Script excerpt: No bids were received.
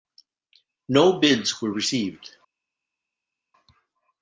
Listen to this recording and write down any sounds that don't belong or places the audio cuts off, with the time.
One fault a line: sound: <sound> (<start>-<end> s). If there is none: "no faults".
no faults